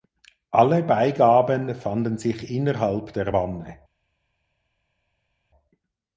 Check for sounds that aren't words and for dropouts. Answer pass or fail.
pass